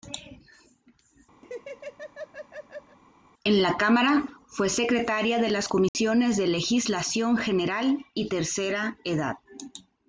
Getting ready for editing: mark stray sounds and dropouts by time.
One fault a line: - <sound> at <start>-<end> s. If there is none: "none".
- laugh at 1.4-3.0 s
- dropout at 5.9-5.9 s